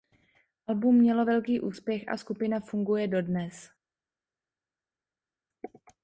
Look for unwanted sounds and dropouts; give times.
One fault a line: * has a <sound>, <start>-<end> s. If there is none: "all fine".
all fine